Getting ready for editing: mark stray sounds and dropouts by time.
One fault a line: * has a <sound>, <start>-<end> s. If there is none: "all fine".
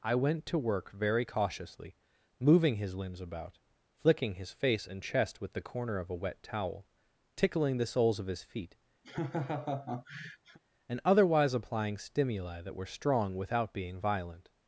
* has a laugh, 9.0-10.6 s